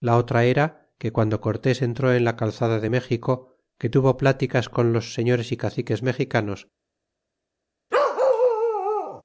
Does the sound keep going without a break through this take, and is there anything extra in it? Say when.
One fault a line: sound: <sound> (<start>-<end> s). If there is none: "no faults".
sound: bark (7.9-9.2 s)